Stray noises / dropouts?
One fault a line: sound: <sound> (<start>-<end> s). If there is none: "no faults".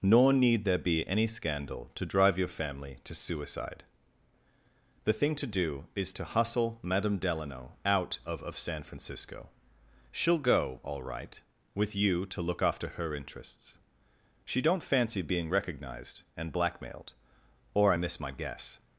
no faults